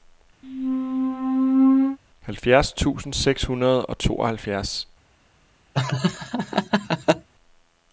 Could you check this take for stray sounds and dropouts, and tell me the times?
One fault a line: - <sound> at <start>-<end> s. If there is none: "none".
- squeak at 0.4-2.0 s
- laugh at 5.7-7.3 s